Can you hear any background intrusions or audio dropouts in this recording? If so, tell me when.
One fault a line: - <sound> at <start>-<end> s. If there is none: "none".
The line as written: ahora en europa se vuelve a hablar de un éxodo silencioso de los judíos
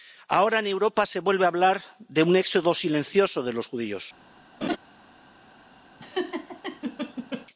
- laugh at 4.6-4.8 s
- laugh at 6.0-7.5 s